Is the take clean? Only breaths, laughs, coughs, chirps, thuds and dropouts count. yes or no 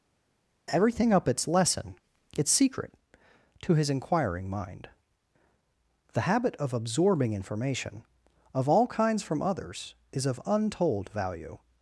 yes